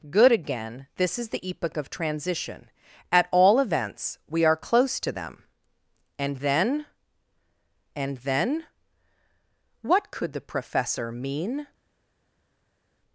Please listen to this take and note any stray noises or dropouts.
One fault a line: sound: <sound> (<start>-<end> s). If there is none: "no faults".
no faults